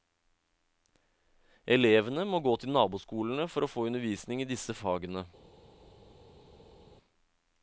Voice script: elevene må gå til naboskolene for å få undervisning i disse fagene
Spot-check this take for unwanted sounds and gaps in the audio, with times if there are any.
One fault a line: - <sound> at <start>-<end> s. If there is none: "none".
none